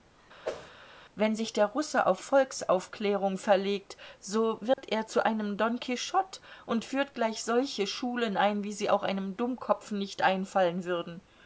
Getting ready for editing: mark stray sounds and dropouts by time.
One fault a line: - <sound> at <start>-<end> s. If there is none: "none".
- whoosh at 0.4-0.7 s
- dropout at 4.7-4.8 s